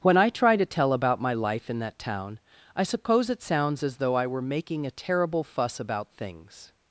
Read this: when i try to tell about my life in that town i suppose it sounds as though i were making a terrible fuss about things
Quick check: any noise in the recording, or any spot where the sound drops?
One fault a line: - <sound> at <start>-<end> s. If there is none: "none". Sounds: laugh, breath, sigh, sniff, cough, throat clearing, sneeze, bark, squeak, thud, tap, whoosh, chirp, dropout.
none